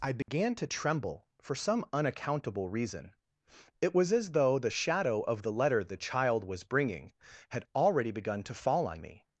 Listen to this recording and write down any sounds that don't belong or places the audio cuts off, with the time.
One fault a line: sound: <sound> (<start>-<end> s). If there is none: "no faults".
sound: dropout (0.2-0.3 s)